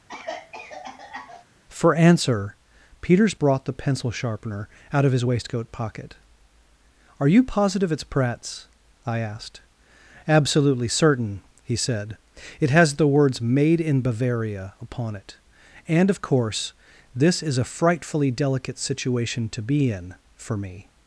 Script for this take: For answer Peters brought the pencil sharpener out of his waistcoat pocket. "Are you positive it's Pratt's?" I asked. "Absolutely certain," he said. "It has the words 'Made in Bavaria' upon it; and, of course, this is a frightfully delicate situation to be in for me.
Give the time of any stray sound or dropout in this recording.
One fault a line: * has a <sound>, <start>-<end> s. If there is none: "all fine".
* has a cough, 0.1-1.5 s